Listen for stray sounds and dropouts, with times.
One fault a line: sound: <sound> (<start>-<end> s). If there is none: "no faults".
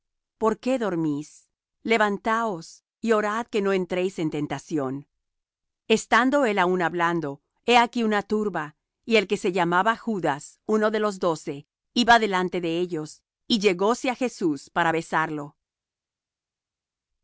no faults